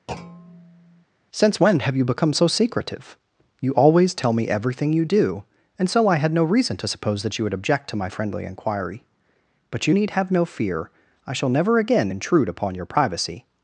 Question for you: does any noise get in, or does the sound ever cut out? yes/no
yes